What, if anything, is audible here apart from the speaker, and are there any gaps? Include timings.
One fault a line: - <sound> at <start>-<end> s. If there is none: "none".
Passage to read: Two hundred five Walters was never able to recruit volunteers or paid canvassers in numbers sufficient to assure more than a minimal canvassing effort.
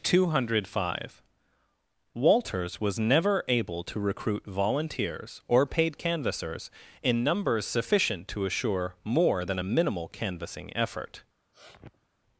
- sniff at 11.5-12.1 s